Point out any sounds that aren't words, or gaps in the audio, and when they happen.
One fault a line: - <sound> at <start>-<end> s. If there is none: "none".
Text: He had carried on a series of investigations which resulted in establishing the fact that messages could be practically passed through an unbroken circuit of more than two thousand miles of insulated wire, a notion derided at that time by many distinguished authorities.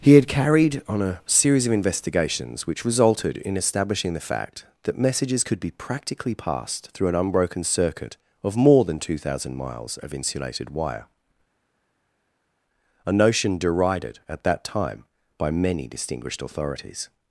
none